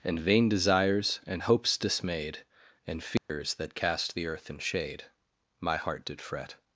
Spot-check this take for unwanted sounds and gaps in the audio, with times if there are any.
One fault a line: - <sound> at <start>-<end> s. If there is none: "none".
- dropout at 3.2-3.3 s